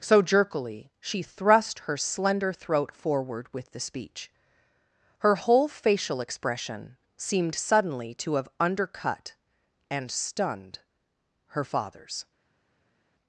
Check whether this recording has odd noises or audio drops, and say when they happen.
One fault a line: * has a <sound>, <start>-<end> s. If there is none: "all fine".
all fine